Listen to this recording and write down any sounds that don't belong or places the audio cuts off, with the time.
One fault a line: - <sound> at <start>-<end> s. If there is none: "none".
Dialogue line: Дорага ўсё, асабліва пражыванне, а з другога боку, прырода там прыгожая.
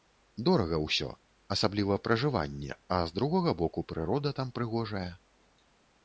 none